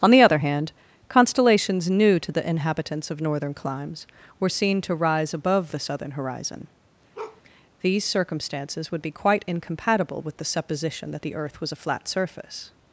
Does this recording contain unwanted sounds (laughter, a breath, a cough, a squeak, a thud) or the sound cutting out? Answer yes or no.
yes